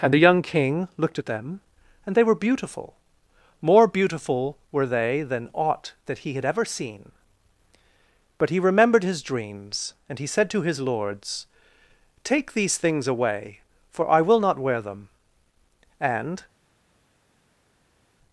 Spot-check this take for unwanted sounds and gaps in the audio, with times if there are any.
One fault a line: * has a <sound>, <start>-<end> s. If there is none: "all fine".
all fine